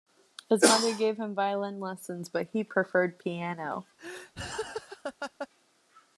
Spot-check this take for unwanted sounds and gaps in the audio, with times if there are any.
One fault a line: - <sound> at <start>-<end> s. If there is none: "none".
- laugh at 4.0-5.5 s